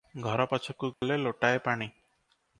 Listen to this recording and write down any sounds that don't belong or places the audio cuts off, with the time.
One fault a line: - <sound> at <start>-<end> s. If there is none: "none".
- dropout at 0.9-1.0 s